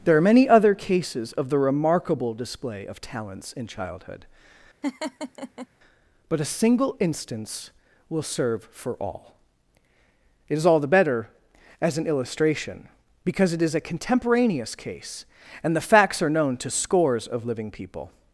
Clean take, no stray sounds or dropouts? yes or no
no